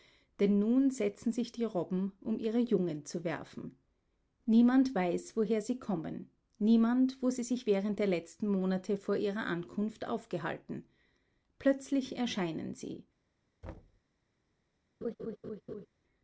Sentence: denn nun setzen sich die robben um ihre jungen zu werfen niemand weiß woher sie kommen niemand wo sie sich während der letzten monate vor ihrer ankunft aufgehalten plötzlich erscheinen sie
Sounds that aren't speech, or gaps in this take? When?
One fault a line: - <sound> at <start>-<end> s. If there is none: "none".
- thud at 13.6-14.0 s
- laugh at 15.0-15.9 s